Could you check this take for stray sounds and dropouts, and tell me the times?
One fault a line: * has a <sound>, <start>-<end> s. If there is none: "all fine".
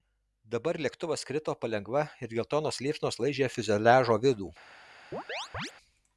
* has a chirp, 5.1-5.7 s